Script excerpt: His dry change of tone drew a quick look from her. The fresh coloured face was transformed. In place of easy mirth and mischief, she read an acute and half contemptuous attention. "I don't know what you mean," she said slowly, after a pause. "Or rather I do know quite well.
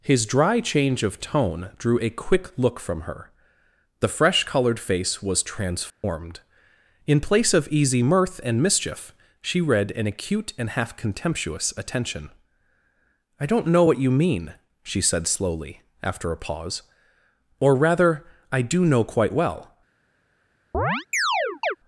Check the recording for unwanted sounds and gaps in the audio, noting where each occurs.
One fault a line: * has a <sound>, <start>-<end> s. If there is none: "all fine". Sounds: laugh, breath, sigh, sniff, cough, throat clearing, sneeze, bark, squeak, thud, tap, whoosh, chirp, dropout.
* has a dropout, 5.9-6.0 s
* has a chirp, 20.7-21.8 s